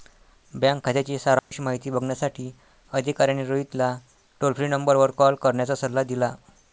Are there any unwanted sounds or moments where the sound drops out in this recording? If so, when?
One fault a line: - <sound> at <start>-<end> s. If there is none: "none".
- dropout at 1.4-1.5 s